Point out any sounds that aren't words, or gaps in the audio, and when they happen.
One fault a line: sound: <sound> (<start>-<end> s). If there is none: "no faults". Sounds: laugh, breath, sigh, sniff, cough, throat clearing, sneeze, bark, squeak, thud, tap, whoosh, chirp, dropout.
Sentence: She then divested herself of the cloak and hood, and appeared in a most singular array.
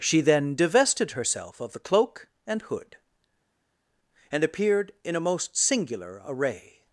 no faults